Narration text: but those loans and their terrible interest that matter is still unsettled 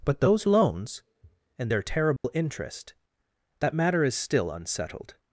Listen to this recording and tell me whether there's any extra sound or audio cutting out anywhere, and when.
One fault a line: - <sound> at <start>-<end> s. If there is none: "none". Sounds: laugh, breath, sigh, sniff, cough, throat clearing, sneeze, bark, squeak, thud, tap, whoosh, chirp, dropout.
- dropout at 2.2-2.2 s